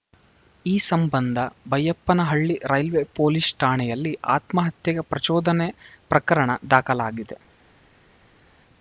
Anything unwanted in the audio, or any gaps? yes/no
no